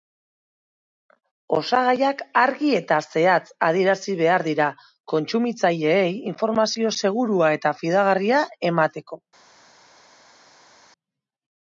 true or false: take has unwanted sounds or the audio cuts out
false